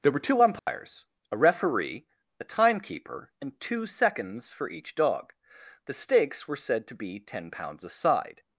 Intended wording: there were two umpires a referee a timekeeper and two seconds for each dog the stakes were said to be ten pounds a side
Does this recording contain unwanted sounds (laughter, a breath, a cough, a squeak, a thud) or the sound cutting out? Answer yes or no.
yes